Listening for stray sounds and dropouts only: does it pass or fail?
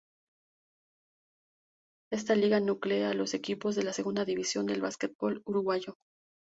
pass